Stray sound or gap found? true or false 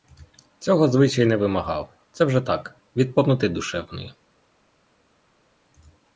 false